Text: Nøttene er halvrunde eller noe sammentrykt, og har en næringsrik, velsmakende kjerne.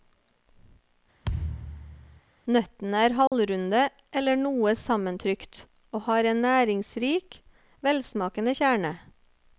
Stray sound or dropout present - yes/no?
yes